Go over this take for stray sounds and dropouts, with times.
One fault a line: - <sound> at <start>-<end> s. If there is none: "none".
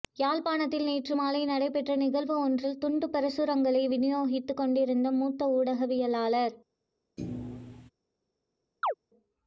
- thud at 7.2-7.9 s
- chirp at 8.8-8.9 s